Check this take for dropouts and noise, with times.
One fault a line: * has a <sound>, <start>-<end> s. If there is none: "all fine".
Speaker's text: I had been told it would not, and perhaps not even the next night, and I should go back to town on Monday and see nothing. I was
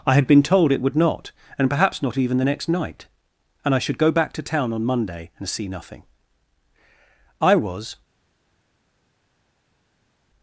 all fine